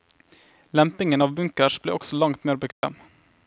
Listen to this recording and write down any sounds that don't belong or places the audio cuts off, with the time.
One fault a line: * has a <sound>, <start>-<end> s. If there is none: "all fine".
* has a dropout, 2.7-2.8 s